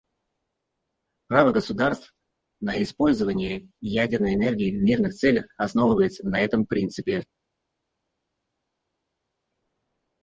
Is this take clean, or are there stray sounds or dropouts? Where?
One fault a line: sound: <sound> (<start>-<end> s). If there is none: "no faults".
no faults